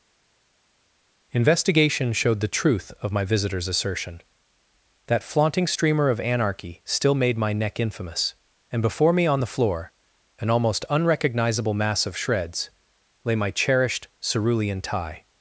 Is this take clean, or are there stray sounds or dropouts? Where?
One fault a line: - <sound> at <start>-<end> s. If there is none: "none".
none